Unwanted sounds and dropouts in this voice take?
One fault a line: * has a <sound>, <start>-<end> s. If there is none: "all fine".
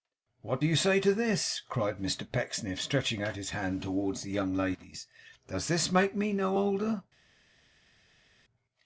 all fine